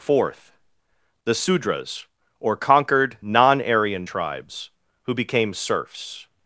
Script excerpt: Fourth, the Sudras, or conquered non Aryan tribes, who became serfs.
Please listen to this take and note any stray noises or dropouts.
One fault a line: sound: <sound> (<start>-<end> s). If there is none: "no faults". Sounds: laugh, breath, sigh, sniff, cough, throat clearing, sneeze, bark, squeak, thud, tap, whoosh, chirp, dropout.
no faults